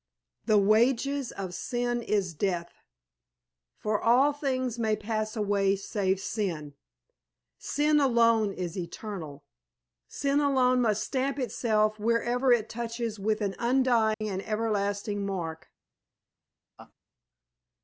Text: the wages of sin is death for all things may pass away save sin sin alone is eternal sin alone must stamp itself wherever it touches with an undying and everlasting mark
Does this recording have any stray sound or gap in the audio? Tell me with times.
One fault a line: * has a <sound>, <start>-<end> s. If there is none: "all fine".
* has a dropout, 14.1-14.2 s
* has a laugh, 16.8-16.9 s